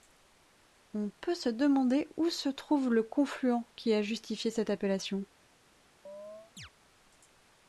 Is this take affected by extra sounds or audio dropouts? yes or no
yes